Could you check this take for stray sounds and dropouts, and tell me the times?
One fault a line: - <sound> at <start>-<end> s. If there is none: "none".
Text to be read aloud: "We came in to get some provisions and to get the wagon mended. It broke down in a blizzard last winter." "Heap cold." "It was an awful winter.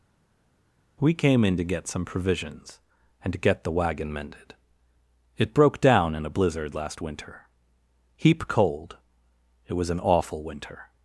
none